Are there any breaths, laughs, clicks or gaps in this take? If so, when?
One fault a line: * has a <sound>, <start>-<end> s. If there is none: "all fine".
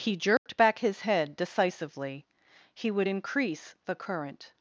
* has a dropout, 0.4-0.5 s